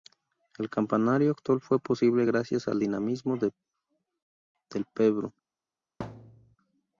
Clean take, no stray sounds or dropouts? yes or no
no